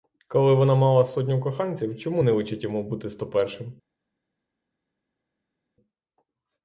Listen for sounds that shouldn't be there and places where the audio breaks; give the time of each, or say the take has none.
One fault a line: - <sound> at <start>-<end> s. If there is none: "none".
none